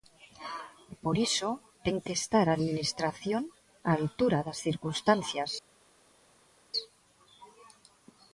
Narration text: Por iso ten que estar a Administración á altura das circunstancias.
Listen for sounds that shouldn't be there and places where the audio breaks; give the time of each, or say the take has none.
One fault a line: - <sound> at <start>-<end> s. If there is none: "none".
none